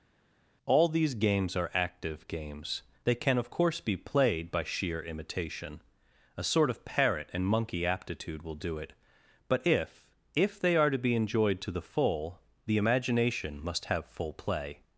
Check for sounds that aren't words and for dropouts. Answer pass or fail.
pass